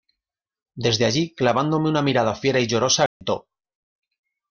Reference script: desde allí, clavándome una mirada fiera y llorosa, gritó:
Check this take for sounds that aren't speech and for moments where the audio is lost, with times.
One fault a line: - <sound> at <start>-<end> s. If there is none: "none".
- dropout at 3.1-3.2 s